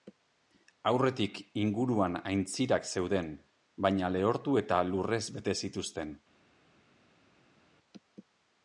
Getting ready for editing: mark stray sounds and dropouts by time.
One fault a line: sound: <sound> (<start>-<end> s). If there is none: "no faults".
no faults